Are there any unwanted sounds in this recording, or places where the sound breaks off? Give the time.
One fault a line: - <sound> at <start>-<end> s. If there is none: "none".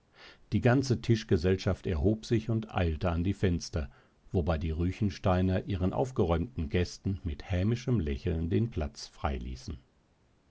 none